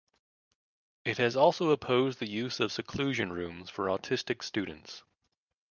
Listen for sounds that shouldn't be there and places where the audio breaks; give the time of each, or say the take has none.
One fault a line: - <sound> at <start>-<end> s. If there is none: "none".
none